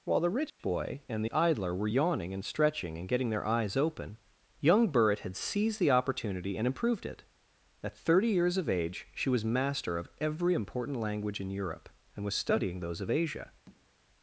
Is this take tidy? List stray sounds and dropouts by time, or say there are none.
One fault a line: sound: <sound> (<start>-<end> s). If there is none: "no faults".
sound: dropout (0.5-0.6 s)
sound: tap (13.7-13.9 s)